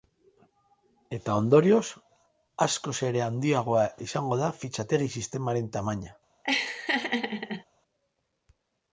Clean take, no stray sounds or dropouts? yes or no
no